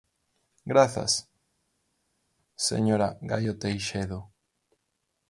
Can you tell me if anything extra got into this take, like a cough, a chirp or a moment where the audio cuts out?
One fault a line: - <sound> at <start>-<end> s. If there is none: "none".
none